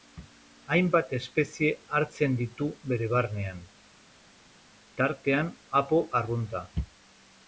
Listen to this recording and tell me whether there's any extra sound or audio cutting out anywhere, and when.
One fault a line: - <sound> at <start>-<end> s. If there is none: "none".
none